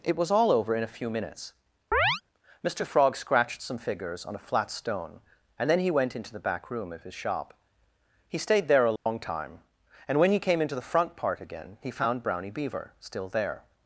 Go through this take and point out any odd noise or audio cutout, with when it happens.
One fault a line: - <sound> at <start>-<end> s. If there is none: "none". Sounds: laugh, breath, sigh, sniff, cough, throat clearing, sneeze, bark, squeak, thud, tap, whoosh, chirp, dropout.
- chirp at 1.9-2.2 s
- dropout at 9.0-9.1 s